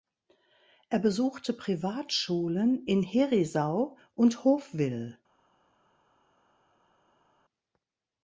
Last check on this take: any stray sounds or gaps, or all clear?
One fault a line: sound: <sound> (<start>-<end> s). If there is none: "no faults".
no faults